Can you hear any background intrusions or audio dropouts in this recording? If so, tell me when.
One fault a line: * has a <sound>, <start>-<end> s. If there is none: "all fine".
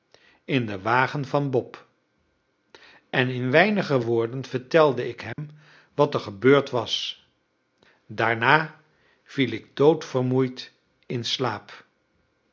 * has a dropout, 5.3-5.4 s